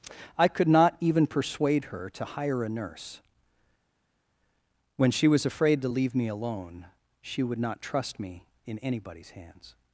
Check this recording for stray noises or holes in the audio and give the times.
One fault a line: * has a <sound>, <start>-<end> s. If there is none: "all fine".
all fine